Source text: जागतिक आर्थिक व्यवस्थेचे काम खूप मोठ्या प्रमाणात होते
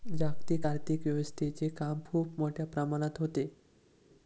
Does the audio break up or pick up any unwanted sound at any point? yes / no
no